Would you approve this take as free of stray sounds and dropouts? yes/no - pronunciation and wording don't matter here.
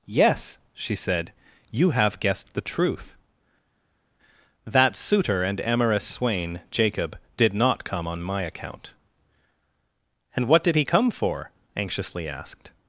yes